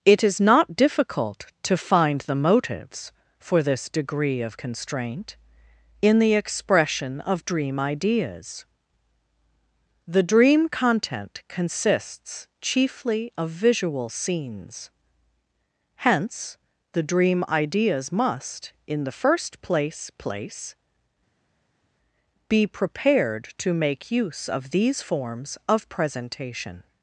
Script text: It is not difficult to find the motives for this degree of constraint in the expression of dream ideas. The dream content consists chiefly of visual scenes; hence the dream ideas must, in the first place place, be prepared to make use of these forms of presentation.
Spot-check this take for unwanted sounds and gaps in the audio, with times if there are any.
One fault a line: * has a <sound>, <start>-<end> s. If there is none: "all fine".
all fine